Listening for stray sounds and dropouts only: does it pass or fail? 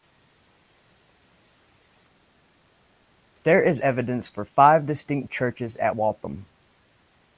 pass